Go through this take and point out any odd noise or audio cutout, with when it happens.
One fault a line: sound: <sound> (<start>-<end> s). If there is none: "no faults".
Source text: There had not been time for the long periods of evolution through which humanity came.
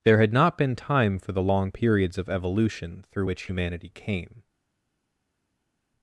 no faults